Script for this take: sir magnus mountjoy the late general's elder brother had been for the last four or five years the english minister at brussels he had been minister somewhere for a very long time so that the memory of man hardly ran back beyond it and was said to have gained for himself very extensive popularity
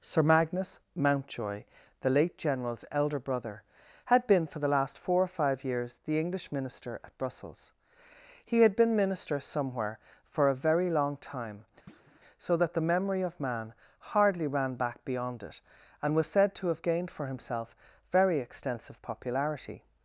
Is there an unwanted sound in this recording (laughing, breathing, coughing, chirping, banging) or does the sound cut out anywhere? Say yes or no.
yes